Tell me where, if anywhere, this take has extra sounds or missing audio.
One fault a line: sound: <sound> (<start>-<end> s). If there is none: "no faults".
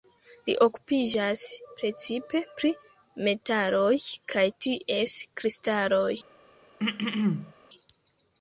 sound: throat clearing (6.8-7.5 s)